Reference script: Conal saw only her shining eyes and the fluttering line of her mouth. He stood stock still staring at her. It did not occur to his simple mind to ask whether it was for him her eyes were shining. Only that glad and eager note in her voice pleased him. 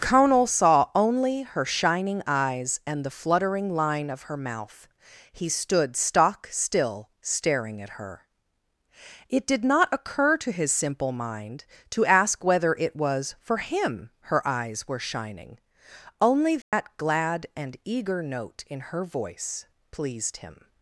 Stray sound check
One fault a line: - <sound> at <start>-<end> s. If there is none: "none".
- dropout at 16.6-16.7 s